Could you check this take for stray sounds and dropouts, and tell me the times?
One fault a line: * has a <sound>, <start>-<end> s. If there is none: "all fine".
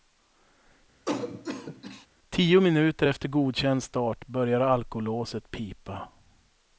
* has a cough, 1.1-2.1 s